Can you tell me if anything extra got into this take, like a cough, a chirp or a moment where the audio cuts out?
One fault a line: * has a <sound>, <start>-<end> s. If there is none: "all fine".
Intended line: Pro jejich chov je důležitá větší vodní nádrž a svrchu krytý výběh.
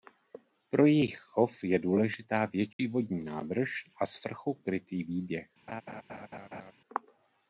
* has a dropout, 2.7-2.8 s
* has a laugh, 5.7-6.7 s